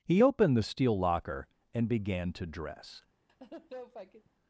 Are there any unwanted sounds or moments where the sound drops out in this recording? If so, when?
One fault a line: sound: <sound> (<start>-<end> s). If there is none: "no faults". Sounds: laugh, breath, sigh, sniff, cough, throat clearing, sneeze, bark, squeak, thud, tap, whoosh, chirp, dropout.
sound: laugh (3.3-4.3 s)